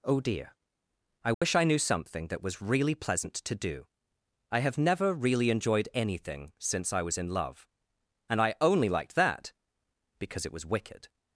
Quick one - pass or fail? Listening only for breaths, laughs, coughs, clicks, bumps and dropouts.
fail